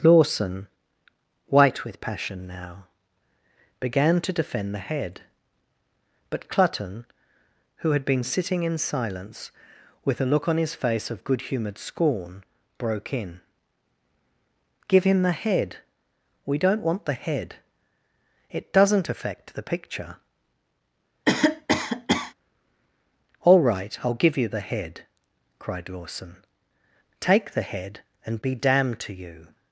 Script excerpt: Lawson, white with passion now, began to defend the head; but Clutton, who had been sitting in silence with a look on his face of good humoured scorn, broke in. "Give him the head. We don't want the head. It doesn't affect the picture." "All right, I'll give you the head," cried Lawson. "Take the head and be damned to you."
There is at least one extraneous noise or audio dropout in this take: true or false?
true